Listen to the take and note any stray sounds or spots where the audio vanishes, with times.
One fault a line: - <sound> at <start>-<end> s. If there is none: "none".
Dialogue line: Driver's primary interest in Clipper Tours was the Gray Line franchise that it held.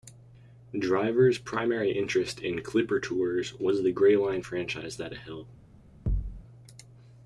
- thud at 6.1-6.4 s